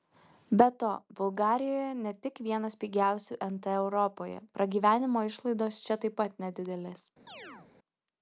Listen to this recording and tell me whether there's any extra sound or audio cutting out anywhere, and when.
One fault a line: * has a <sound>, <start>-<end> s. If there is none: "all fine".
* has a chirp, 7.3-7.7 s